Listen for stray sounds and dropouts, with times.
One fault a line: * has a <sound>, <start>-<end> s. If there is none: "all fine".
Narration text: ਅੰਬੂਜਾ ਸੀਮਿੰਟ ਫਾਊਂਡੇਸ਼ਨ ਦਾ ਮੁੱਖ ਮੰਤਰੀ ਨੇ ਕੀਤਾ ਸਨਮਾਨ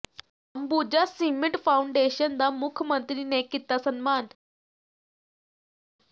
all fine